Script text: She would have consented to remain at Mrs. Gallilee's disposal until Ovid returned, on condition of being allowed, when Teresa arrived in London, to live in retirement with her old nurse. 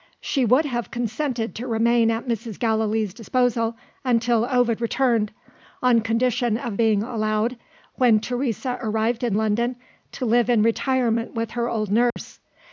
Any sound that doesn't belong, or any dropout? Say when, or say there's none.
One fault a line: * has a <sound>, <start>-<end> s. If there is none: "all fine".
* has a dropout, 12.1-12.2 s